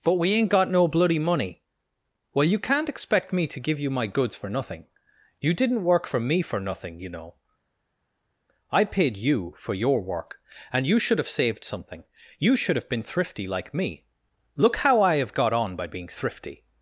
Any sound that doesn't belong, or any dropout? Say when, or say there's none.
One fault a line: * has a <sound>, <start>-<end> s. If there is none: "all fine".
all fine